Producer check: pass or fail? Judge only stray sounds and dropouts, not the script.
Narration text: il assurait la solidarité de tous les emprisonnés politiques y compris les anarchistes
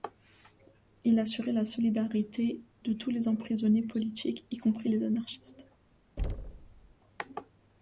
fail